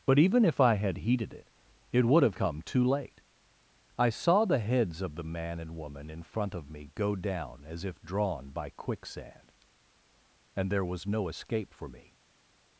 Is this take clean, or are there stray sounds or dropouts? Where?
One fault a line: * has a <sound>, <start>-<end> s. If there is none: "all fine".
all fine